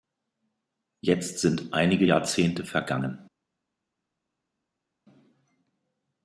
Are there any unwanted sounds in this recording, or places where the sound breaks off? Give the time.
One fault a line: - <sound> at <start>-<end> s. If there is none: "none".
none